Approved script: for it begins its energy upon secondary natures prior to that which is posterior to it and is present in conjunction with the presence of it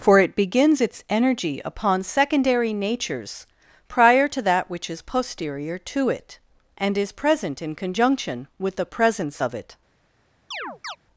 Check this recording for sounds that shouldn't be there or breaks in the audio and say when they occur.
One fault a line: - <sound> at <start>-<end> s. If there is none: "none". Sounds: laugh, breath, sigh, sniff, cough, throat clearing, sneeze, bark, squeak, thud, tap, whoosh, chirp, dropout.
- chirp at 10.5-11.0 s